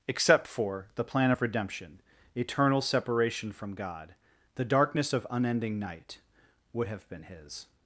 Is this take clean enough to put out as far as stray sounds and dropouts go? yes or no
yes